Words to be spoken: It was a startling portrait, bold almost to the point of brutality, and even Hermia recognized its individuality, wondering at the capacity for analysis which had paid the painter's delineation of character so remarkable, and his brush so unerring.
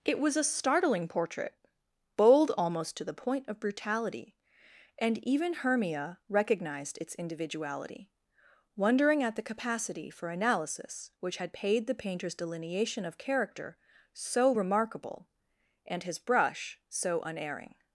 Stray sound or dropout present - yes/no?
no